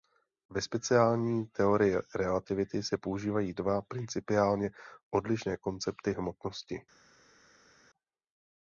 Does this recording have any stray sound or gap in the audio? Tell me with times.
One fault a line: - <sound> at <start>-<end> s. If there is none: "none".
none